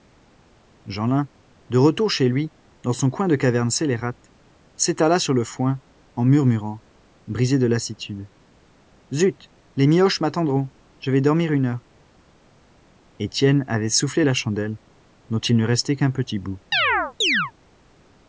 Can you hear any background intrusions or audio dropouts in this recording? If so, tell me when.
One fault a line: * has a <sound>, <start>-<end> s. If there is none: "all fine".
* has a chirp, 16.7-17.5 s